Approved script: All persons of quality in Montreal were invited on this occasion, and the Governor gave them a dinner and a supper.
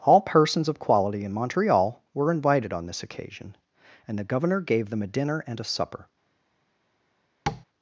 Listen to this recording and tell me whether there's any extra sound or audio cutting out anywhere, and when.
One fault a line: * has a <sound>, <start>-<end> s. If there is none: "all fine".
* has a tap, 7.5-7.7 s